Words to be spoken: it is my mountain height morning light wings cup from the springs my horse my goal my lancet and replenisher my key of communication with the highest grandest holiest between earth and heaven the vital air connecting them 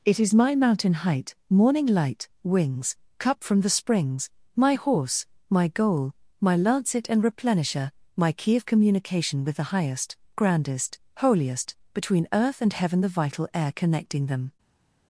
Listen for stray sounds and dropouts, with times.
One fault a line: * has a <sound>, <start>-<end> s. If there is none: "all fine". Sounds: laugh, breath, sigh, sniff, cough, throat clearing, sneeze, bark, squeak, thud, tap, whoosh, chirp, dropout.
all fine